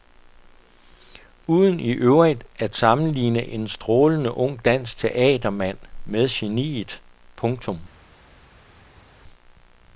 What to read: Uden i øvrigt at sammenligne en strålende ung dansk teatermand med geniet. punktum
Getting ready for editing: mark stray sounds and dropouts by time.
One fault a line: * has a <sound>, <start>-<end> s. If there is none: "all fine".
all fine